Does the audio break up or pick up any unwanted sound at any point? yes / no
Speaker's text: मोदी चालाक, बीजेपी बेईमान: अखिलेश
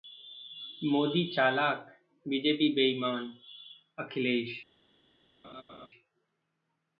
yes